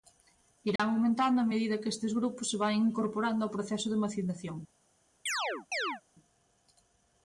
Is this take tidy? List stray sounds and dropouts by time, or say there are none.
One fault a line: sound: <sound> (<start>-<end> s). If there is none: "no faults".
sound: dropout (0.8-0.8 s)
sound: chirp (5.3-6.0 s)